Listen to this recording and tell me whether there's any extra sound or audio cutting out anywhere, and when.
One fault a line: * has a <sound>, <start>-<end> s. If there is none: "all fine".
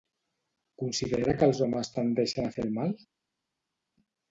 all fine